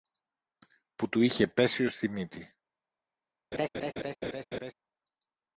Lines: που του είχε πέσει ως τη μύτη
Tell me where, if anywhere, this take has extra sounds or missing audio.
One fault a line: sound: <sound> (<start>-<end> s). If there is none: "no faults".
sound: laugh (3.5-4.7 s)